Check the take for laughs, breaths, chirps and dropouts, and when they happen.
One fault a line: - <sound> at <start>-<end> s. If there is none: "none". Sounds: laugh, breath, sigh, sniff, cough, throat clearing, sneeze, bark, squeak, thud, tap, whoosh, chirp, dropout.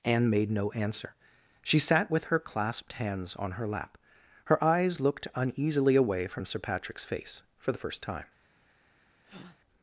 - breath at 9.2-9.6 s